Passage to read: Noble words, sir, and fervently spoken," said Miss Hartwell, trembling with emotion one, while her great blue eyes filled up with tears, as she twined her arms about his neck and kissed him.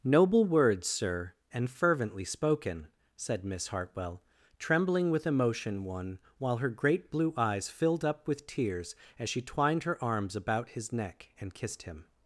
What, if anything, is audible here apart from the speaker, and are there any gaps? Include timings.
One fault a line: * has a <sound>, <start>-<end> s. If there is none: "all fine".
all fine